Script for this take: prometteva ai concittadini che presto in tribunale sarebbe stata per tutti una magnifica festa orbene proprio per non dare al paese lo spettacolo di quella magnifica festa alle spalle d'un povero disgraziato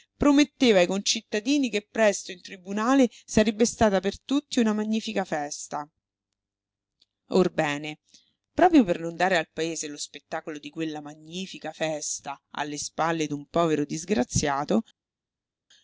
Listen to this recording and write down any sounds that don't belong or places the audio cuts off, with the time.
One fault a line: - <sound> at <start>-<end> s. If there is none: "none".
none